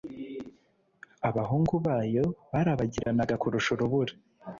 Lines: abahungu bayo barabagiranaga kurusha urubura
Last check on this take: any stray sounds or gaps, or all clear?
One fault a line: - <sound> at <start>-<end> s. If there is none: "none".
- dropout at 3.0-3.1 s